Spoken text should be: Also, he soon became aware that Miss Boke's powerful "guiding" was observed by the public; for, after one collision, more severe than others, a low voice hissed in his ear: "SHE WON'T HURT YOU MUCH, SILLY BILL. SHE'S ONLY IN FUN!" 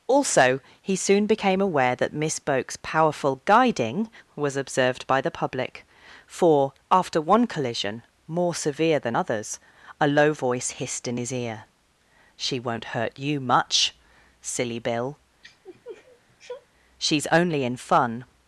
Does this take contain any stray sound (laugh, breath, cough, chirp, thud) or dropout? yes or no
yes